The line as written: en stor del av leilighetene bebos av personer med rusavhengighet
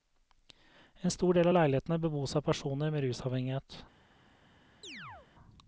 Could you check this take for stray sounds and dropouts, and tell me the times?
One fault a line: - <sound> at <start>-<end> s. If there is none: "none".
- chirp at 4.8-5.3 s